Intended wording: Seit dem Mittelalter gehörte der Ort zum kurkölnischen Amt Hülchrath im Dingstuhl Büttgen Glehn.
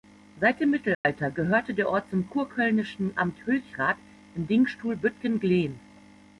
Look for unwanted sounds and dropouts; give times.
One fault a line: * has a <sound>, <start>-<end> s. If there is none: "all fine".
* has a dropout, 0.9-1.0 s